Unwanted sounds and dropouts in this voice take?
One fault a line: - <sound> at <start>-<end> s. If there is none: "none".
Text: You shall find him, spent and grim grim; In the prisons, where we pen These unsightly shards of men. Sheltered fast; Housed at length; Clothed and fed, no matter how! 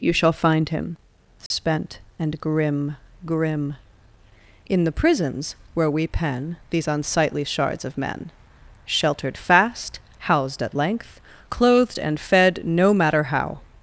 - dropout at 1.5-1.5 s